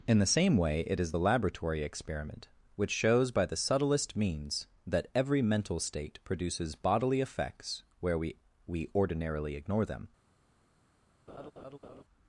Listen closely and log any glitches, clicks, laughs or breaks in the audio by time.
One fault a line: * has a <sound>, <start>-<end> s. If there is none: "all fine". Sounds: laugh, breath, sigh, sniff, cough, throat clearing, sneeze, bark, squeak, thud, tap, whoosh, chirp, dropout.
* has a laugh, 11.3-12.0 s